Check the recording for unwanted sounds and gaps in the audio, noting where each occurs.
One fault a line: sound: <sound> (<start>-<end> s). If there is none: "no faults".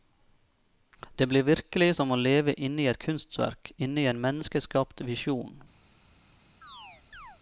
sound: chirp (6.6-7.4 s)